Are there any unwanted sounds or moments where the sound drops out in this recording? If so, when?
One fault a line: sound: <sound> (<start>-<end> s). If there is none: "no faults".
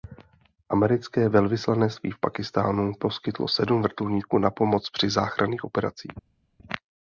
no faults